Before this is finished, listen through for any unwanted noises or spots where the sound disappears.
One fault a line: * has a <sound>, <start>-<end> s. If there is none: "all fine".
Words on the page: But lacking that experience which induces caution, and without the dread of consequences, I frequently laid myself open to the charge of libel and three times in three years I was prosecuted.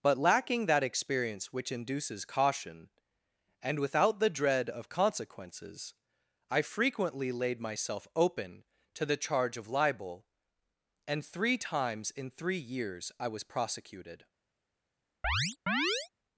* has a chirp, 15.2-16.1 s